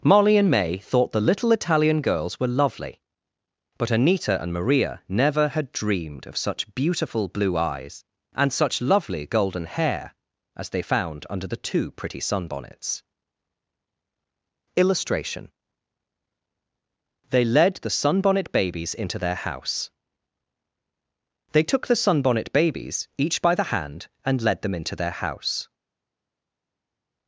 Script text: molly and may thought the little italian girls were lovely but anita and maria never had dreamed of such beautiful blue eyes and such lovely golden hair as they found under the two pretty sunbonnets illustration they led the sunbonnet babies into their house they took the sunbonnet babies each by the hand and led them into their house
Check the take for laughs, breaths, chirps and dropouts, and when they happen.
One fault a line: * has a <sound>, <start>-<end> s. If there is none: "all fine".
all fine